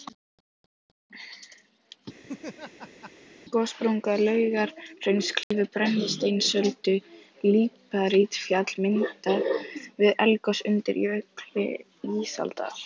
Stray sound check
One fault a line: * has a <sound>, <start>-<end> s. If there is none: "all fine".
* has a laugh, 2.2-3.1 s
* has a dropout, 5.4-5.5 s